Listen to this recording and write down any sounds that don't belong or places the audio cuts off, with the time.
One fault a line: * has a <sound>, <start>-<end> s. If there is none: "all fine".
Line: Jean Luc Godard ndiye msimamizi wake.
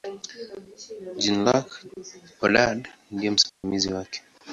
* has a dropout, 3.5-3.6 s